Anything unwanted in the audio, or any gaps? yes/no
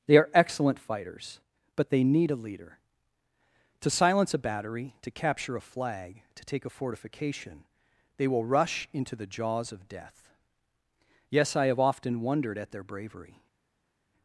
no